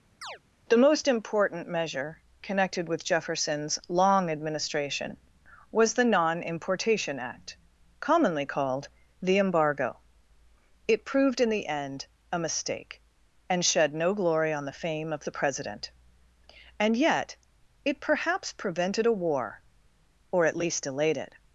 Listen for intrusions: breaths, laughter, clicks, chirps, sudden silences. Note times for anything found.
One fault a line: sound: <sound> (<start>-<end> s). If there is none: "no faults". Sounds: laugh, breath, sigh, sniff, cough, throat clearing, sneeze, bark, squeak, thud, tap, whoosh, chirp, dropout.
sound: chirp (0.2-0.4 s)